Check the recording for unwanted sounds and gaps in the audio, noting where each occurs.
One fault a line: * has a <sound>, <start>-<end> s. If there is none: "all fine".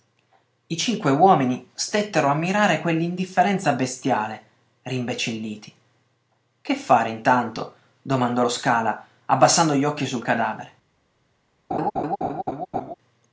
* has a laugh, 11.7-12.9 s